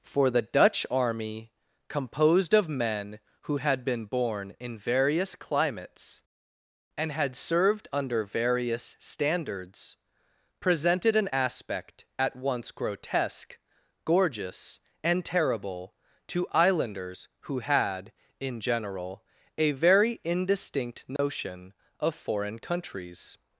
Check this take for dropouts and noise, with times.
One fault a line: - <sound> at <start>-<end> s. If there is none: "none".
- dropout at 21.2-21.2 s